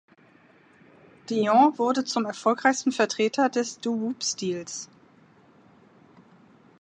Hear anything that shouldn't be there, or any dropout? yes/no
no